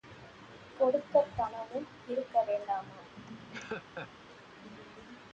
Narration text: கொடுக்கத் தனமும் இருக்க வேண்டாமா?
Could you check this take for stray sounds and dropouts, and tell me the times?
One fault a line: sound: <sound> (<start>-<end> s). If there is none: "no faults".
sound: laugh (3.2-4.1 s)